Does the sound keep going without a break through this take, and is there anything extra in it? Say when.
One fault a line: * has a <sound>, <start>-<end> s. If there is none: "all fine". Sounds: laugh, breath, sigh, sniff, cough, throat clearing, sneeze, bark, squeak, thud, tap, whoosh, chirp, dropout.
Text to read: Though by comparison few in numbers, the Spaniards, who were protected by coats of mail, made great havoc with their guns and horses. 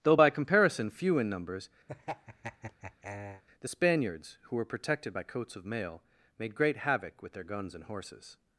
* has a laugh, 1.9-3.4 s